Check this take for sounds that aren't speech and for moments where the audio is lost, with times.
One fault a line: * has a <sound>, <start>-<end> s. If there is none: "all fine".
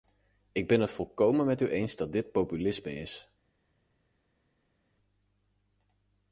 all fine